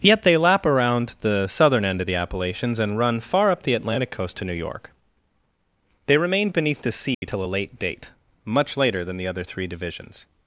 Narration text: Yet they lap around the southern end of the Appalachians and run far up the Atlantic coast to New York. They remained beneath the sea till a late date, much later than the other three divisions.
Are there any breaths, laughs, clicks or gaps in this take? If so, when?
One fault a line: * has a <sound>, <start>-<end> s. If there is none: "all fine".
* has a dropout, 7.1-7.2 s